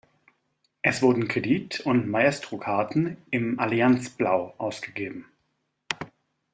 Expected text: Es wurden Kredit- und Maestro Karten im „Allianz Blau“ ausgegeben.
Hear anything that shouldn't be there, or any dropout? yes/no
no